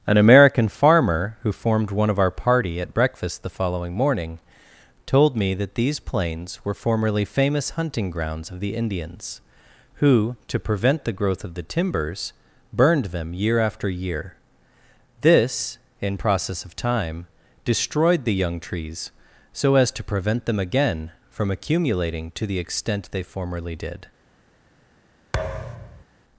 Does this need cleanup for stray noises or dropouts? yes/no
yes